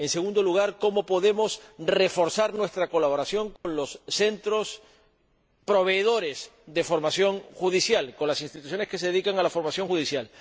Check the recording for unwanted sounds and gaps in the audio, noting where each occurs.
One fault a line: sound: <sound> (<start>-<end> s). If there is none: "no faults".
sound: dropout (3.6-3.6 s)